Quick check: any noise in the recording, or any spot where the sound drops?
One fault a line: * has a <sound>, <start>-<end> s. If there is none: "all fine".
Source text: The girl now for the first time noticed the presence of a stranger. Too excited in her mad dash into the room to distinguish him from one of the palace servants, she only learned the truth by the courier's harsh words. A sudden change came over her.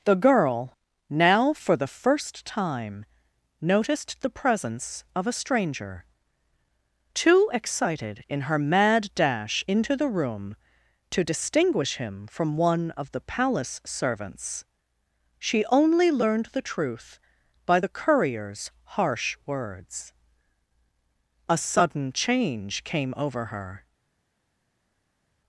all fine